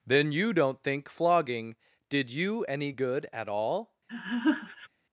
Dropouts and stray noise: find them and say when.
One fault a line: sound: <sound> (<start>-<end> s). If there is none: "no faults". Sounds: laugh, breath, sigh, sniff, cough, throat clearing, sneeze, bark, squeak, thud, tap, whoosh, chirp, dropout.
sound: laugh (4.1-4.9 s)